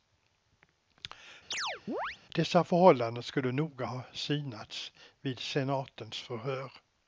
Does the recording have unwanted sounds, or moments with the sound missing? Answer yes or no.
yes